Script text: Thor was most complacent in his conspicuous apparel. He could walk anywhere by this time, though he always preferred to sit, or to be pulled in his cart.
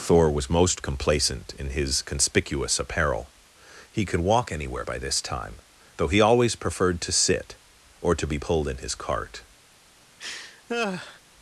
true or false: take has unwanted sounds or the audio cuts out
true